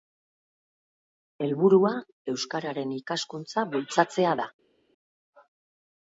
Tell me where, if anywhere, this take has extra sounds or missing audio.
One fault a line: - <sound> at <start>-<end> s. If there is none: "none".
none